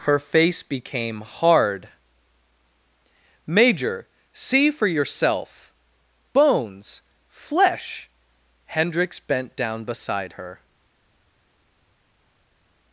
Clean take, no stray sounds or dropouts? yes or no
yes